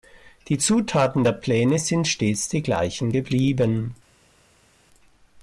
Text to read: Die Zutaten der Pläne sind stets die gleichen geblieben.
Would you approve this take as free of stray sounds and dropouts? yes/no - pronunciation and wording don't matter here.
yes